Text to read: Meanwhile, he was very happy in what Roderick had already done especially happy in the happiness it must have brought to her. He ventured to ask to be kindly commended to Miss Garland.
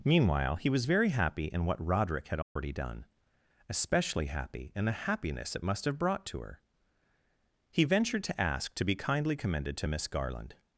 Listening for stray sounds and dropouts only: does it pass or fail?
fail